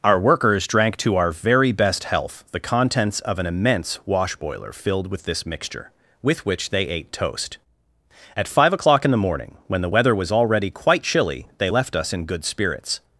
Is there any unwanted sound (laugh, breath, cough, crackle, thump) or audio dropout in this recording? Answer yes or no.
no